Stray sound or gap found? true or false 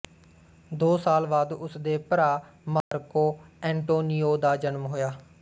true